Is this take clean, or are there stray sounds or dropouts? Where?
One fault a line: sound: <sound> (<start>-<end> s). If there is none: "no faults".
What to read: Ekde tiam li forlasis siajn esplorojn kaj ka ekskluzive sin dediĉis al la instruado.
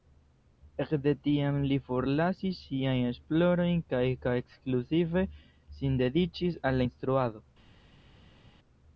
no faults